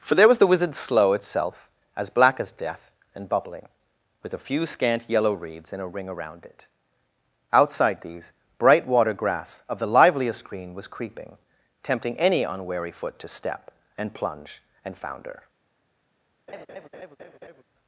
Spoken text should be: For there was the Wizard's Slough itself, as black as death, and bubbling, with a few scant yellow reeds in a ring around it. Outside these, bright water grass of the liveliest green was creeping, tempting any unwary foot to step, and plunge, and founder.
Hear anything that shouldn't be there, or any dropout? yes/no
yes